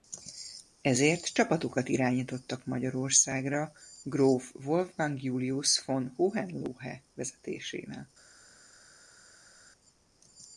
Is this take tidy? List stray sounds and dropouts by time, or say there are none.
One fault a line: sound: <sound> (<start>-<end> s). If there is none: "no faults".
no faults